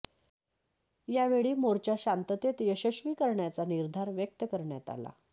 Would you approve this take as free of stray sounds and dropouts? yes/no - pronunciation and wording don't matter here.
yes